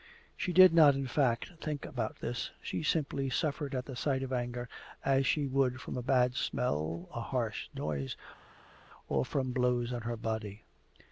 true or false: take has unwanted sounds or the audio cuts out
false